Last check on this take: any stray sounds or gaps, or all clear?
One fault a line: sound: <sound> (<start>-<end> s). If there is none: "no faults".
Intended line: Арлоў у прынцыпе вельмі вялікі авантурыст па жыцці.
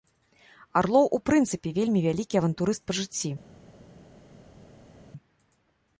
no faults